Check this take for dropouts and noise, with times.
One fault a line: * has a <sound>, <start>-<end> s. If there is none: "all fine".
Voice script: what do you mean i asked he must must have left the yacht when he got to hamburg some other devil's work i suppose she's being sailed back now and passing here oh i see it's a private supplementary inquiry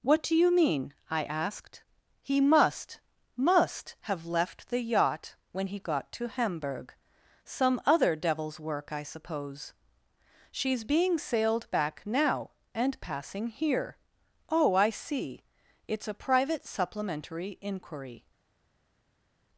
all fine